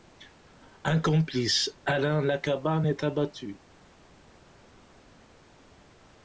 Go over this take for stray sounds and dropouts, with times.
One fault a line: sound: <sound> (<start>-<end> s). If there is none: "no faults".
no faults